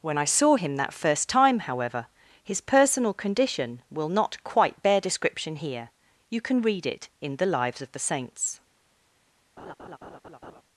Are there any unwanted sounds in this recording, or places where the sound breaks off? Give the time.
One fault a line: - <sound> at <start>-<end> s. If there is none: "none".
- laugh at 9.6-10.6 s